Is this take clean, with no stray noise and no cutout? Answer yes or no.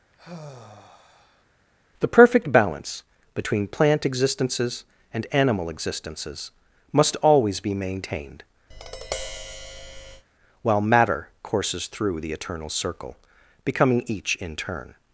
no